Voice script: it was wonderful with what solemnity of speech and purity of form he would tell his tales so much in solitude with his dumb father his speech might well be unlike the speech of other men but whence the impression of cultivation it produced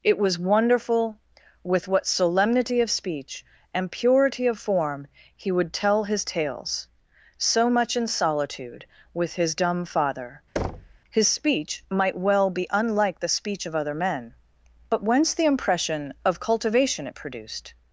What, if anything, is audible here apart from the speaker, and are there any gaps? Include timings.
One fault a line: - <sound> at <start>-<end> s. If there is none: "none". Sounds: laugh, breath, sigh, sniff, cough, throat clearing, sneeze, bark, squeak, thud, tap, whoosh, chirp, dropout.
- thud at 10.6-11.0 s